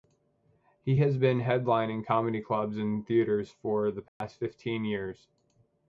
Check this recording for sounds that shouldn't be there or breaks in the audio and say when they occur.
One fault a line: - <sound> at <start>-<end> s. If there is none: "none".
- dropout at 4.1-4.2 s